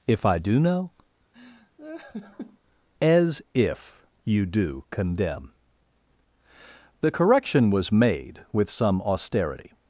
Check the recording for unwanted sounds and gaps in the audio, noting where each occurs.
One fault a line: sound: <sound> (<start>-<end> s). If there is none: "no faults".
sound: laugh (1.3-2.6 s)